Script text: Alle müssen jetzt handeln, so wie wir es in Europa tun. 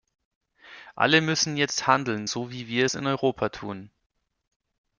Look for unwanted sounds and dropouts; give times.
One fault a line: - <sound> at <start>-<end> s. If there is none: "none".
none